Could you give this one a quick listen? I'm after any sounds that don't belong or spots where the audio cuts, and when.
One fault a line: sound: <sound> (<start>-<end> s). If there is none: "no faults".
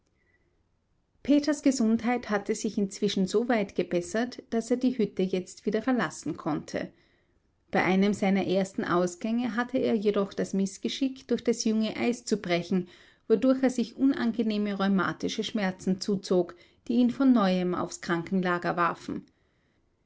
no faults